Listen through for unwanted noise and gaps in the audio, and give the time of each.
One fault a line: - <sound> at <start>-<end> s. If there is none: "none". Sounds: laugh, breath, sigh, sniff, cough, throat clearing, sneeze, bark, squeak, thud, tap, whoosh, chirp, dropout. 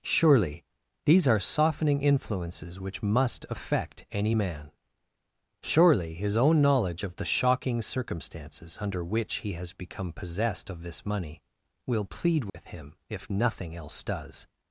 - dropout at 12.5-12.5 s